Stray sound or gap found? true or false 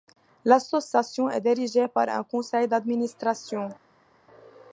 false